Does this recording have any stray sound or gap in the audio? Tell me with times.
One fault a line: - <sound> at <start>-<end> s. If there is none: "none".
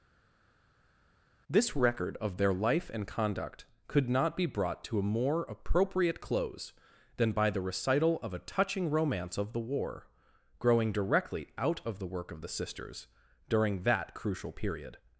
none